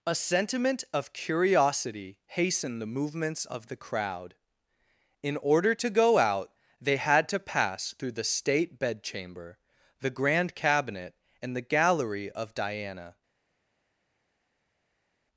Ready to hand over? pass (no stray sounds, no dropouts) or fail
pass